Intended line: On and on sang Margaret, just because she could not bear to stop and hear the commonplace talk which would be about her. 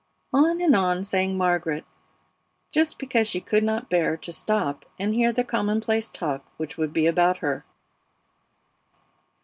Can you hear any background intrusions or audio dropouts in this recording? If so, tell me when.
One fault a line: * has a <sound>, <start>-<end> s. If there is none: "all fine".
all fine